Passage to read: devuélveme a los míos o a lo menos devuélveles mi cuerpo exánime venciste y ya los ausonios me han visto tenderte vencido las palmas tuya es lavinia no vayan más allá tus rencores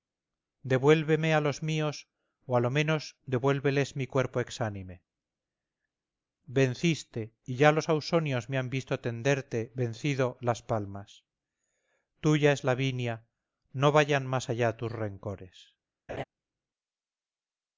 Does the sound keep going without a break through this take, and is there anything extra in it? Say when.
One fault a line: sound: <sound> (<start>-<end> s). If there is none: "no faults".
sound: laugh (16.1-16.2 s)